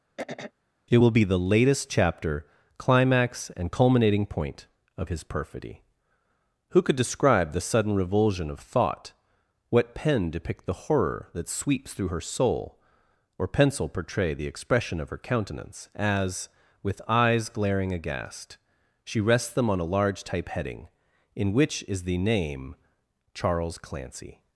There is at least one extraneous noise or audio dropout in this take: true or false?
true